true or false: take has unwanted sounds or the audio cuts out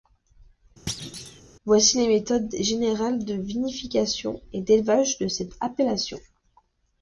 true